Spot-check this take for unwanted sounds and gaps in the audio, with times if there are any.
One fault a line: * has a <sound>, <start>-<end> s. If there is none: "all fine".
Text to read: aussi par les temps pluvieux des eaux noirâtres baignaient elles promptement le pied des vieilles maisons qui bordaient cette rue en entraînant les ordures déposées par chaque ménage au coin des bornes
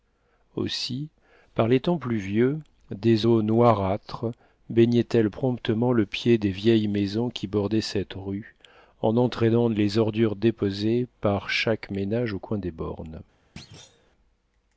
* has a thud, 13.6-14.1 s